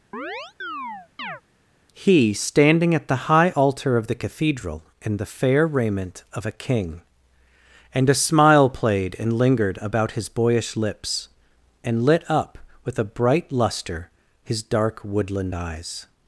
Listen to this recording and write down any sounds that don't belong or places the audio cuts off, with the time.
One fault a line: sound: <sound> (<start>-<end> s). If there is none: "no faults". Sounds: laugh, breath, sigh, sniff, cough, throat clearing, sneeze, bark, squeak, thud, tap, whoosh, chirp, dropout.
sound: chirp (0.1-1.4 s)